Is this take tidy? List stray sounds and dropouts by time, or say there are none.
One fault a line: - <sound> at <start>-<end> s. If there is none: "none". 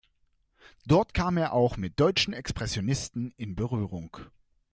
none